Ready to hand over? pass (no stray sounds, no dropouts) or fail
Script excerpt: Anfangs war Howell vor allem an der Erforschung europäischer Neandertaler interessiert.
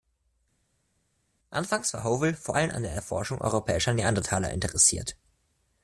pass